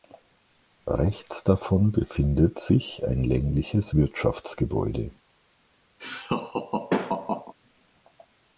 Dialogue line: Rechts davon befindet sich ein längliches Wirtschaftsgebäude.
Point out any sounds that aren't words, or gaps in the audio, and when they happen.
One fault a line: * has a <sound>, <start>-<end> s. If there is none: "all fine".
* has a laugh, 6.0-7.5 s